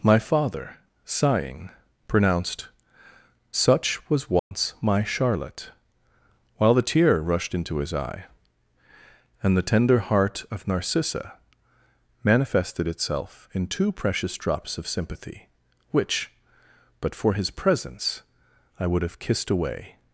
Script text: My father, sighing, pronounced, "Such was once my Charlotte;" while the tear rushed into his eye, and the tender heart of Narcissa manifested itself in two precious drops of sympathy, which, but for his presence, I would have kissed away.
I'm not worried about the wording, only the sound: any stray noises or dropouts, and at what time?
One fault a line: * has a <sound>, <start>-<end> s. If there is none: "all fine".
* has a dropout, 4.4-4.5 s